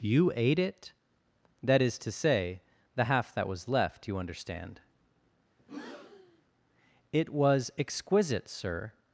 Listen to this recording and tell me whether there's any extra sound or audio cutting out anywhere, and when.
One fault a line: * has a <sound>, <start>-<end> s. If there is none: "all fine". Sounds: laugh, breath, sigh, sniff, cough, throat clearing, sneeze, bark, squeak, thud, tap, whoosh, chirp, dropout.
* has a breath, 5.6-6.4 s